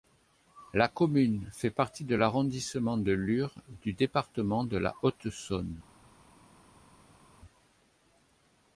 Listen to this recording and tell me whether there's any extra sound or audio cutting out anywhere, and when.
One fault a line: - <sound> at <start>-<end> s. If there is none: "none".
none